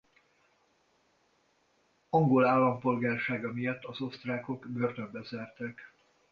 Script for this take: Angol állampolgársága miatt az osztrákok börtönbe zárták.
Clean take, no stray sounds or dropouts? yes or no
yes